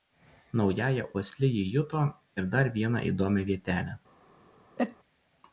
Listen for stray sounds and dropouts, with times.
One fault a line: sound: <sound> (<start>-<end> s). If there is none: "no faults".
sound: sneeze (4.8-5.0 s)